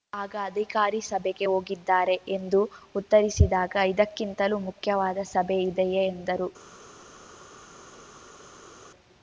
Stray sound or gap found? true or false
false